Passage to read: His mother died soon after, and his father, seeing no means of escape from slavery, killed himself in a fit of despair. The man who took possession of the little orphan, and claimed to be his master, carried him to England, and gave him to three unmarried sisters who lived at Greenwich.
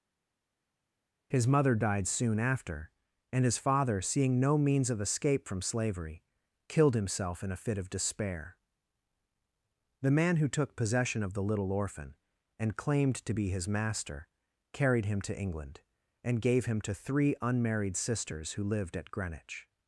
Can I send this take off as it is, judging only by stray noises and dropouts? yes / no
yes